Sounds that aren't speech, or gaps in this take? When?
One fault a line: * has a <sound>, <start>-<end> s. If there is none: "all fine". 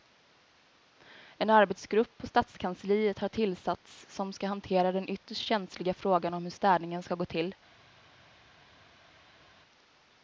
all fine